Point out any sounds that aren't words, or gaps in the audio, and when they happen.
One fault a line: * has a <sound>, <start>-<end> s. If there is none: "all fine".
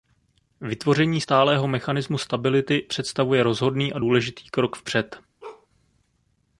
* has a bark, 5.4-5.7 s